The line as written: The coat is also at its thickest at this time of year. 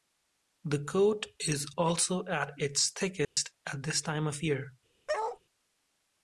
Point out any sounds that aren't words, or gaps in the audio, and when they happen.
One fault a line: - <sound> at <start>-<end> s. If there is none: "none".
- dropout at 3.2-3.4 s
- bark at 5.1-5.4 s